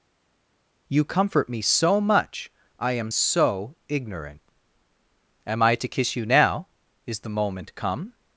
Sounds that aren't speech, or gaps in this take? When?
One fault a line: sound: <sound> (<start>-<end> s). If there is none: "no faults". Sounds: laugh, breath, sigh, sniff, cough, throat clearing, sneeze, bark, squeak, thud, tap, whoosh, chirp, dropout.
no faults